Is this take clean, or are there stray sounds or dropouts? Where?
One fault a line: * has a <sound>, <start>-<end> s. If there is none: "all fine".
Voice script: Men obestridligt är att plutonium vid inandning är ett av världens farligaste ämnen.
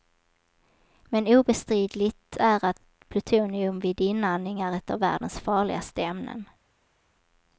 all fine